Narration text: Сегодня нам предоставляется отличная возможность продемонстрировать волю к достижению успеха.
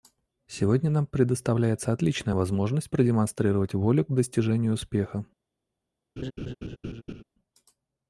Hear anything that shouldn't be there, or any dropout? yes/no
yes